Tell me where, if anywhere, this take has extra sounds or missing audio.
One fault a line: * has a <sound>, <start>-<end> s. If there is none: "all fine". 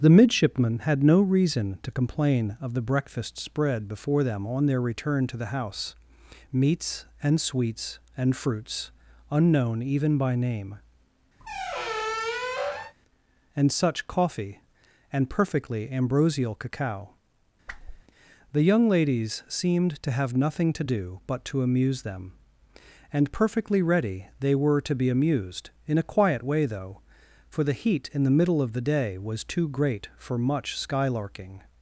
* has a squeak, 11.4-12.9 s
* has a whoosh, 17.7-18.0 s